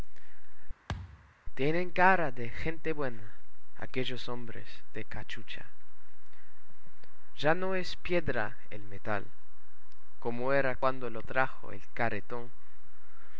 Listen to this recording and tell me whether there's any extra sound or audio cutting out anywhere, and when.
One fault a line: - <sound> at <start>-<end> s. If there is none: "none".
- thud at 0.9-1.3 s